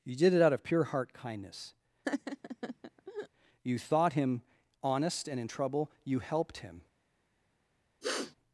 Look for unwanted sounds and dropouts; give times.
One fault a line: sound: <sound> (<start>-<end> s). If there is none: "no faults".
sound: laugh (2.0-3.3 s)
sound: sniff (8.0-8.3 s)